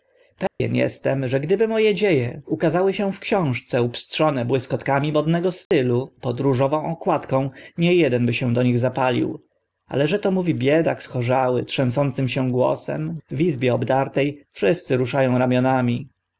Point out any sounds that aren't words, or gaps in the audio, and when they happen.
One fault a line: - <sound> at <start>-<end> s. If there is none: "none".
- dropout at 0.5-0.6 s
- dropout at 5.6-5.7 s